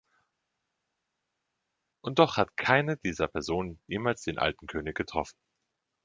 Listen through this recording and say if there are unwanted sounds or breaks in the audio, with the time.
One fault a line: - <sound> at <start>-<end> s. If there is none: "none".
none